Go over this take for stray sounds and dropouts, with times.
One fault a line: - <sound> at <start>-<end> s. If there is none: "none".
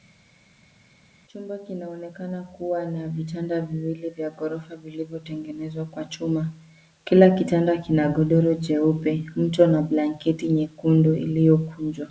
none